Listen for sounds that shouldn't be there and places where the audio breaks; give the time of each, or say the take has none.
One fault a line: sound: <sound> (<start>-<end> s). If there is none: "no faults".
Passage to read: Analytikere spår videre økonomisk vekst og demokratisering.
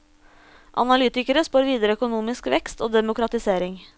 no faults